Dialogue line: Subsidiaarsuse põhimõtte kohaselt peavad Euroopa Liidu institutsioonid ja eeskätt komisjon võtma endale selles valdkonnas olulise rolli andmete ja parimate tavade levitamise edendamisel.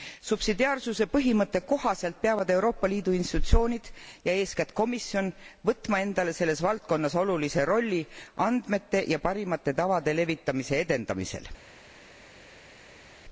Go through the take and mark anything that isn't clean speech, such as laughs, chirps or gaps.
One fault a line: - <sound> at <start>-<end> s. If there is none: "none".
none